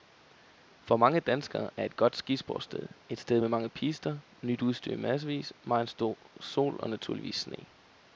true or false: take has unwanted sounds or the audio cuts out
false